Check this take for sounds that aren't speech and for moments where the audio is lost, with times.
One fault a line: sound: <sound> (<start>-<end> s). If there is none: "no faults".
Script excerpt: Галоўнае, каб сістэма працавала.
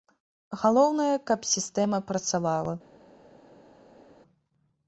no faults